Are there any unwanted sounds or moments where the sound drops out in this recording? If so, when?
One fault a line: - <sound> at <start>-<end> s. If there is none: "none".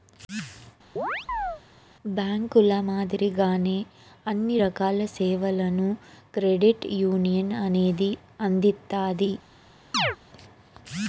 - chirp at 1.0-1.6 s
- chirp at 9.9-10.2 s